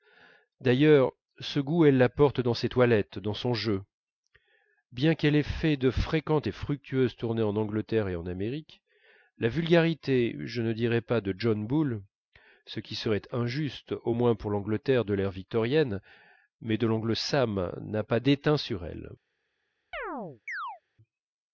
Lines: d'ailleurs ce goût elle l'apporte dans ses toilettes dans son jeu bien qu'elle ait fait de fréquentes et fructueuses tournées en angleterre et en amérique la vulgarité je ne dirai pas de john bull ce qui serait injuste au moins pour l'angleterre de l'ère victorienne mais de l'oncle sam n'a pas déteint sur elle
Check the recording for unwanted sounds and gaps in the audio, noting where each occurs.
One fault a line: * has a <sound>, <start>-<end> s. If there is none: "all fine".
* has a chirp, 19.9-20.8 s